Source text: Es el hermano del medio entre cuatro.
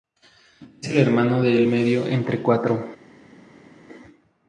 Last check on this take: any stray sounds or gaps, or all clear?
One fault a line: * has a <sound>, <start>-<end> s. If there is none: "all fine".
all fine